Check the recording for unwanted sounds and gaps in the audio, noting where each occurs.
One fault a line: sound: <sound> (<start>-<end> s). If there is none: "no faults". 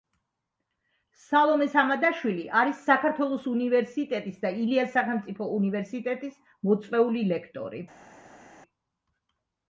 no faults